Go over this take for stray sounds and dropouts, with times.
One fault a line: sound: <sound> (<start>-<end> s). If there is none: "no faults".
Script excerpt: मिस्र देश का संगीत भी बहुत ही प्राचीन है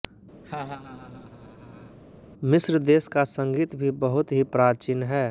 sound: laugh (0.4-2.0 s)